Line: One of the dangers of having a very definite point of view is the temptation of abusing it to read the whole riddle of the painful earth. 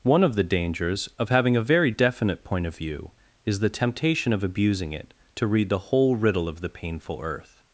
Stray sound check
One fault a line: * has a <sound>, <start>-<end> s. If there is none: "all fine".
all fine